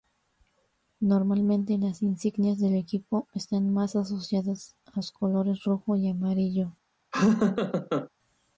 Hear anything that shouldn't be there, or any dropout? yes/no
yes